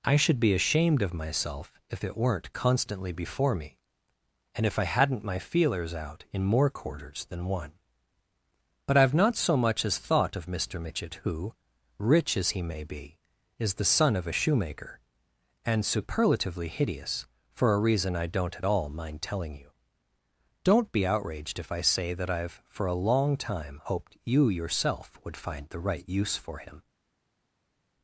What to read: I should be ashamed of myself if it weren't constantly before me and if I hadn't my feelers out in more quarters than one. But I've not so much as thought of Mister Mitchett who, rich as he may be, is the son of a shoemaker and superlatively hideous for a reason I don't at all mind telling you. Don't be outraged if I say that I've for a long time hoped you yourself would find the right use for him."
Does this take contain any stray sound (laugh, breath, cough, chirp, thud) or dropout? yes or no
no